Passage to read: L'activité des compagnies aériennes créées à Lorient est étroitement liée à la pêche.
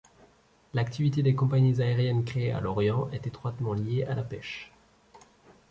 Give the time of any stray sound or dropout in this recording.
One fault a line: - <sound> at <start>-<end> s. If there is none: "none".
none